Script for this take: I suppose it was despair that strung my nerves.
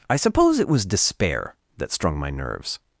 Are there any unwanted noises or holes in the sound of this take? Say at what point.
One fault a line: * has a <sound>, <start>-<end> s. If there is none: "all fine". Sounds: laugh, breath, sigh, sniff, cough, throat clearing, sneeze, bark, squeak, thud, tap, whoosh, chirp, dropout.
all fine